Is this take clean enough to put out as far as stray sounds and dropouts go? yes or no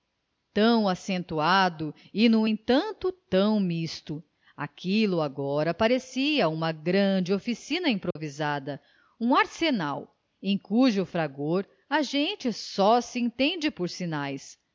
no